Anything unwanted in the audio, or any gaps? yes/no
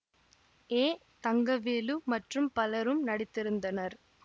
no